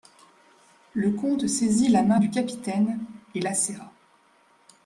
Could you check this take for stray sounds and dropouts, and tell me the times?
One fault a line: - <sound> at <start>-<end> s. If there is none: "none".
none